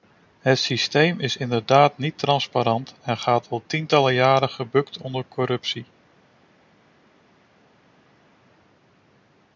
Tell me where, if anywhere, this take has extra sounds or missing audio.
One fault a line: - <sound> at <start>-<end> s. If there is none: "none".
none